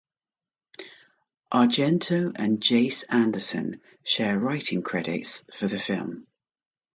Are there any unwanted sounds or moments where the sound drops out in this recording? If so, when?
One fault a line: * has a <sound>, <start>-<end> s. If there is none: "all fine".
all fine